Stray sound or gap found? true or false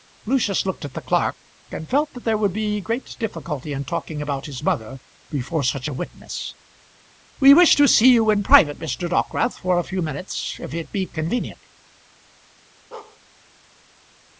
true